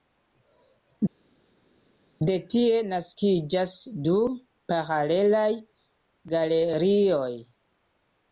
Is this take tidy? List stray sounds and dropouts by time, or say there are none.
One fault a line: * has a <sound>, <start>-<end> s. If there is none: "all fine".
all fine